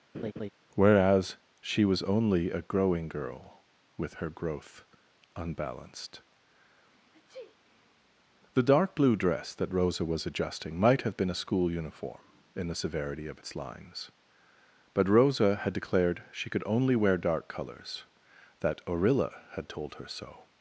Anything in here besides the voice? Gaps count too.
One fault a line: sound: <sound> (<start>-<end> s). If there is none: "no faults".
sound: laugh (0.1-0.5 s)
sound: sneeze (7.1-7.6 s)